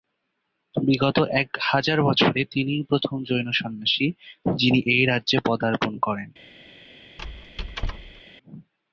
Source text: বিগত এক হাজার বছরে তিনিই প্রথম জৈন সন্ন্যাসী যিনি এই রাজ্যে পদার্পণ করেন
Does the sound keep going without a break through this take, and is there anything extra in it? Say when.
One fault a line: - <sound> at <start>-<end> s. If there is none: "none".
- squeak at 7.2-8.2 s